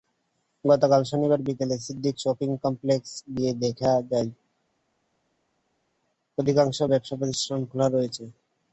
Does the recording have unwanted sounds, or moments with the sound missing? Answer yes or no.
no